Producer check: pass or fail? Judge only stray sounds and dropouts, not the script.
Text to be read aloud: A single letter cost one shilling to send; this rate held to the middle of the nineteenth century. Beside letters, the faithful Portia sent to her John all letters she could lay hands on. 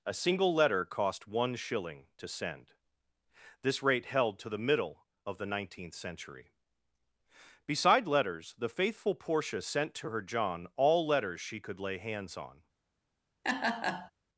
fail